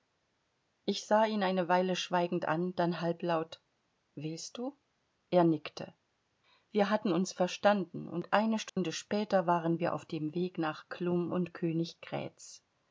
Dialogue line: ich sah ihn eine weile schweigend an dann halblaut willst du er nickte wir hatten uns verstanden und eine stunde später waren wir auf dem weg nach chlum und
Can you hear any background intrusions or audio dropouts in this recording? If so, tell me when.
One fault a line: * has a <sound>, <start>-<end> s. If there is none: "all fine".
* has a dropout, 8.7-8.8 s